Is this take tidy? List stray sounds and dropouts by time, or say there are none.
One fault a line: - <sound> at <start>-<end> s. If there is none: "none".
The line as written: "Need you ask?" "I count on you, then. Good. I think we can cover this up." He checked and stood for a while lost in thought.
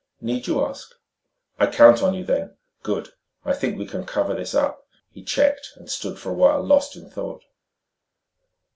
none